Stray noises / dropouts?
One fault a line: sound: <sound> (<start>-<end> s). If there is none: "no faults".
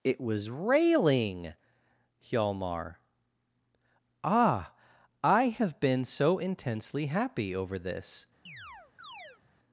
sound: chirp (8.5-9.4 s)